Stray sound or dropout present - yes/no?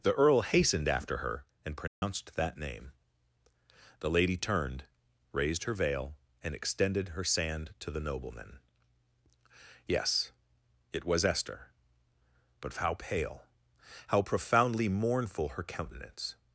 yes